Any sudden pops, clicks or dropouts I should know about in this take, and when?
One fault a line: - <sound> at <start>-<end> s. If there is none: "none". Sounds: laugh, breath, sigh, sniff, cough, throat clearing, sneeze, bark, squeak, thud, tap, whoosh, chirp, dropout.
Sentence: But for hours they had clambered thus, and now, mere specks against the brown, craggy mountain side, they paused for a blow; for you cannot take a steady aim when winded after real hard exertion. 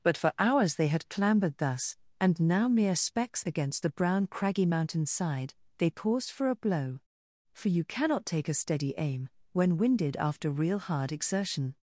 none